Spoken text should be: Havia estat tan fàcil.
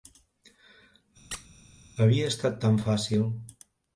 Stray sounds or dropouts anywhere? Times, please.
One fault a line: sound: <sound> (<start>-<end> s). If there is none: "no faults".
sound: squeak (1.3-1.5 s)